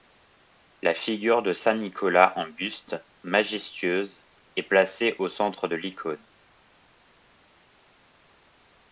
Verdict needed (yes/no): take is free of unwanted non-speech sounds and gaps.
yes